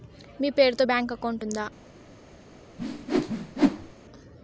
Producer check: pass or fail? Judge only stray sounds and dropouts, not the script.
fail